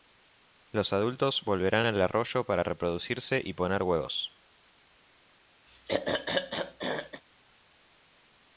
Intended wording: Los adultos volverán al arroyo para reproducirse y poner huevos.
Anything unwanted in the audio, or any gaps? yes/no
yes